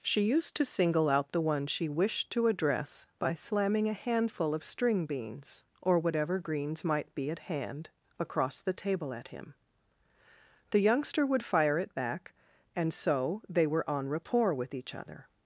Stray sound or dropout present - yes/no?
no